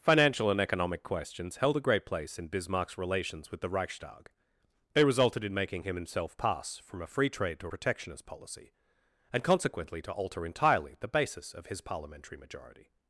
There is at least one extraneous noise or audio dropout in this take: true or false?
false